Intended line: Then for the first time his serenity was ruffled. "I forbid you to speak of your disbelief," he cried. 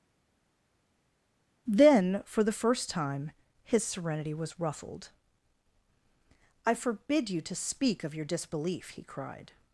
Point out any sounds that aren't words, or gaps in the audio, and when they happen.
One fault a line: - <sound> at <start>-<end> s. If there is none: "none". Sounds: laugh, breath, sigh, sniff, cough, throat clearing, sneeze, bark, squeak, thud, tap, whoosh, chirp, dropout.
none